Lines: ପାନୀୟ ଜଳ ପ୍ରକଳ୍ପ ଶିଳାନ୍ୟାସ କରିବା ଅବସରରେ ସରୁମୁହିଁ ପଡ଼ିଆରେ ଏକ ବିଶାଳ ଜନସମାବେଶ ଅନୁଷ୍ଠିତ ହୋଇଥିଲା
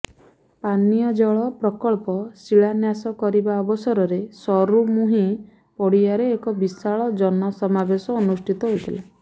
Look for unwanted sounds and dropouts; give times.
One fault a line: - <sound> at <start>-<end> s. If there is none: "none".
none